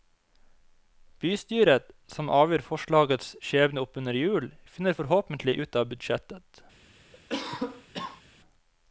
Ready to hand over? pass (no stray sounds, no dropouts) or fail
fail